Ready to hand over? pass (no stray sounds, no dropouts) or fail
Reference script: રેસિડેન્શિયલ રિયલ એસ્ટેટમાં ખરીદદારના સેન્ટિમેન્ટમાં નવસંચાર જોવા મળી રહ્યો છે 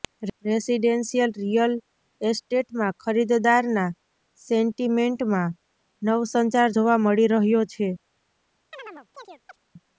fail